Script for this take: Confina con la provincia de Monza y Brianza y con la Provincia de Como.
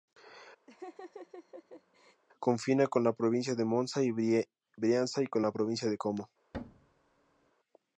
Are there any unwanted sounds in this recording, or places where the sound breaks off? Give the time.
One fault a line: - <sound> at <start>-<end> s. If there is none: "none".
- laugh at 0.7-2.2 s
- thud at 6.5-7.5 s